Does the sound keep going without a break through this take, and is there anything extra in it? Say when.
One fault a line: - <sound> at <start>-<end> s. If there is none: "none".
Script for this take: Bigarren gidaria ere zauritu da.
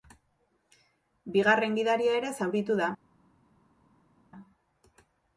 none